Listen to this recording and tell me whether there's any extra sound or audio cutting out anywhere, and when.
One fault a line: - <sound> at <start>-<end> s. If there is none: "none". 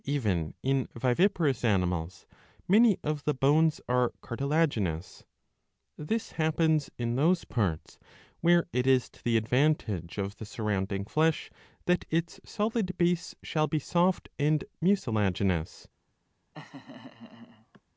- laugh at 16.5-17.8 s